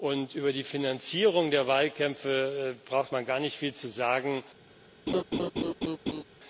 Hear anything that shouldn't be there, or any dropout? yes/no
yes